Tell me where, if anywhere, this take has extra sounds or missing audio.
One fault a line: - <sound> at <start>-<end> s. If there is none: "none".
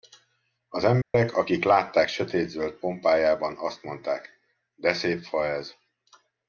- dropout at 1.0-1.1 s